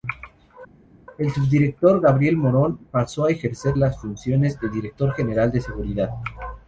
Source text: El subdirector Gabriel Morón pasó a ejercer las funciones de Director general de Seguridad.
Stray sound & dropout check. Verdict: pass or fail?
pass